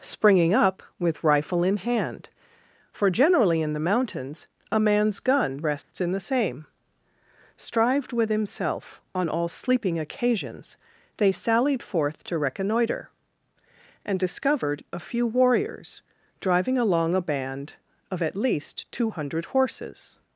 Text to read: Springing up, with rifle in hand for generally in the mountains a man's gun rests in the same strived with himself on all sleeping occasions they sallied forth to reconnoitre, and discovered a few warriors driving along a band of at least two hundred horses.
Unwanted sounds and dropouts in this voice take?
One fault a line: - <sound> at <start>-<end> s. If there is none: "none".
- dropout at 5.8-5.9 s